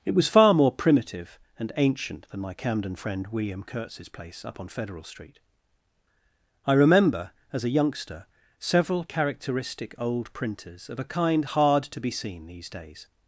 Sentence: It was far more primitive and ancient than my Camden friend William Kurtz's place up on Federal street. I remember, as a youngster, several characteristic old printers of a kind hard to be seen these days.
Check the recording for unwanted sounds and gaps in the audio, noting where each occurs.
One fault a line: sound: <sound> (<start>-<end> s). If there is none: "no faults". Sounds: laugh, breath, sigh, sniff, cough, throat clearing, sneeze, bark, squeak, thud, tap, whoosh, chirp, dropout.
no faults